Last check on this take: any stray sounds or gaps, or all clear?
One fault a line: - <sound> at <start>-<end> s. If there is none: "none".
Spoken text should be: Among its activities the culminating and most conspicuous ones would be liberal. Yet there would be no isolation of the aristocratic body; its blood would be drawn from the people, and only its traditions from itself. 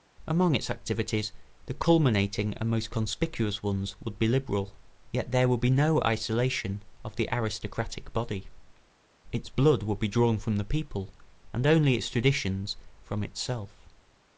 none